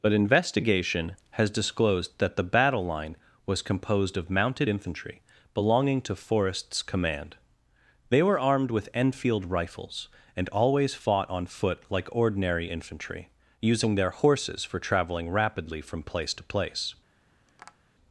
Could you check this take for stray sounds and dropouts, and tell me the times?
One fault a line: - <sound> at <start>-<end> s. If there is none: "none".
- tap at 17.5-17.8 s